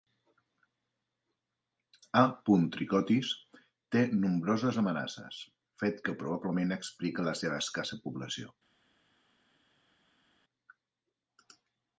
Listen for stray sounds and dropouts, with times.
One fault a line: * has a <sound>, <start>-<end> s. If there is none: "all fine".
all fine